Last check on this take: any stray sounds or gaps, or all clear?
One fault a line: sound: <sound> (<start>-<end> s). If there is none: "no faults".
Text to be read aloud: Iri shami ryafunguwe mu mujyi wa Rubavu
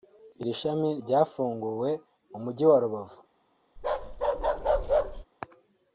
sound: bark (3.8-5.2 s)